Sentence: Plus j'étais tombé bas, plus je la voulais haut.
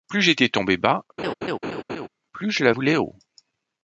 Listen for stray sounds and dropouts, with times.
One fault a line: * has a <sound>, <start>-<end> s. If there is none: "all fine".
* has a laugh, 1.2-2.1 s